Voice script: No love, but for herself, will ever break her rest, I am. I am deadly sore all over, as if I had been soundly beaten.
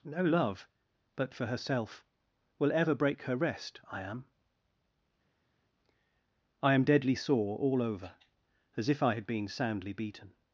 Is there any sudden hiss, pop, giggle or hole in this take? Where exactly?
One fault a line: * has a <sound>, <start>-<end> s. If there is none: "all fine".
all fine